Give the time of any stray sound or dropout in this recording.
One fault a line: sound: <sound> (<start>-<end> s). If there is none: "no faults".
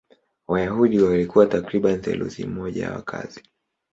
no faults